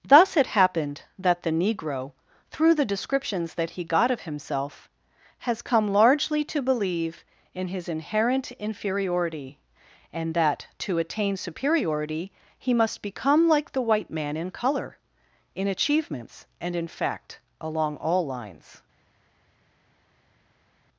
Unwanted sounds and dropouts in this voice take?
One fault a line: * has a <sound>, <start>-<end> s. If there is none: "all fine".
all fine